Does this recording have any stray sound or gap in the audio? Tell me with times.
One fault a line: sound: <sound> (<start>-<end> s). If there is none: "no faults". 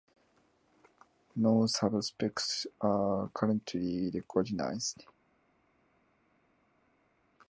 no faults